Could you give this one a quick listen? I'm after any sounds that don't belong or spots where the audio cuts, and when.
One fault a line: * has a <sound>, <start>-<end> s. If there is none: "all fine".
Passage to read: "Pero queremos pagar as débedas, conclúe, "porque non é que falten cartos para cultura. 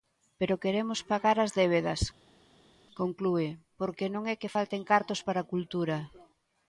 all fine